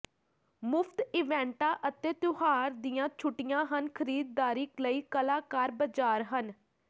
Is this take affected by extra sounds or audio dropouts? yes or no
no